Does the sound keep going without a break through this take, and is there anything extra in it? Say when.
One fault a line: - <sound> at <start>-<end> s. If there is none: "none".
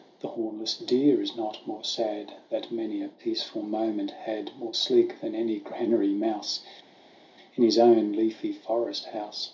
none